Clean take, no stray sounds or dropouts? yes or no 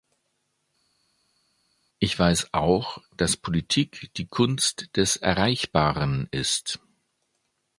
yes